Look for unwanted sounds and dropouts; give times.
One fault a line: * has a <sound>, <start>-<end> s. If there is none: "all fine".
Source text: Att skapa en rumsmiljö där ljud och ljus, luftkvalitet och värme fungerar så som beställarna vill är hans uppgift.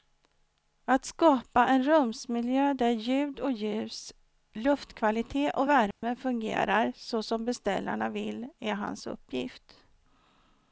* has a dropout, 5.9-6.0 s